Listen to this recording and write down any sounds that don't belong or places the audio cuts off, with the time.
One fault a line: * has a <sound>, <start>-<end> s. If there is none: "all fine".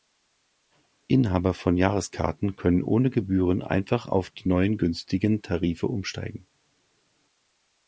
all fine